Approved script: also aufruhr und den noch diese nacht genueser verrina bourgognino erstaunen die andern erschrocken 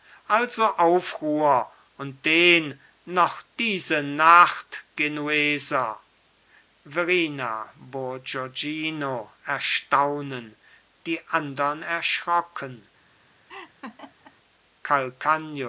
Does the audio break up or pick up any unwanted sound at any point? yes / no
yes